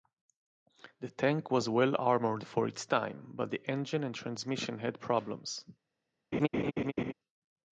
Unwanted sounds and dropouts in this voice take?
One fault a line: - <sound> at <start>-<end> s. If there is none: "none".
- laugh at 6.3-7.1 s